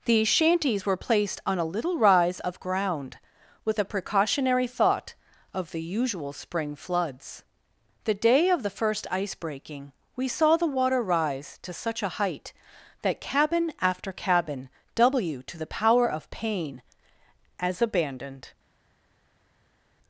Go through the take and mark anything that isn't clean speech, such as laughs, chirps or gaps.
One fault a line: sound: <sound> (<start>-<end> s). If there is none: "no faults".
no faults